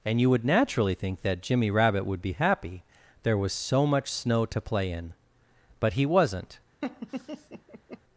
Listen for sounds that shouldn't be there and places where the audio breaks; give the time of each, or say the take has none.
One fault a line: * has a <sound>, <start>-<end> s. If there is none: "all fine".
* has a laugh, 6.8-8.0 s